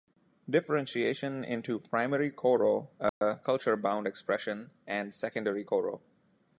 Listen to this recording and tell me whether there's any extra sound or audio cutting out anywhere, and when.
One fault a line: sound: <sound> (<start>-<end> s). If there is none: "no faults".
sound: dropout (3.1-3.2 s)